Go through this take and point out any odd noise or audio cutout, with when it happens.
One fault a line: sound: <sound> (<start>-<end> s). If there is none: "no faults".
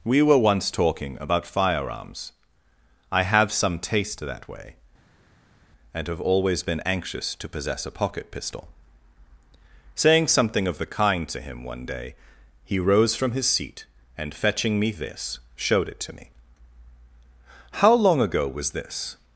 no faults